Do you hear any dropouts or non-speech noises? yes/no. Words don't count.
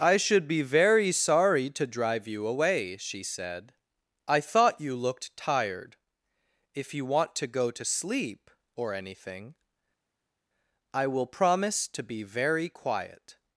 no